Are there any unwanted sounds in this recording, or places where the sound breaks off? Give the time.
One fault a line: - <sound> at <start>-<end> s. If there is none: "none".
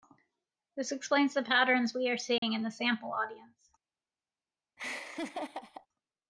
- dropout at 2.4-2.4 s
- laugh at 4.8-5.9 s